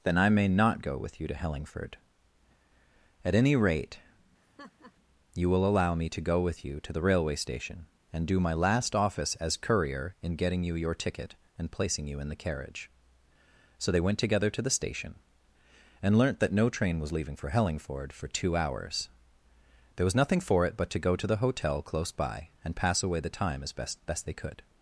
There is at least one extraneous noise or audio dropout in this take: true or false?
true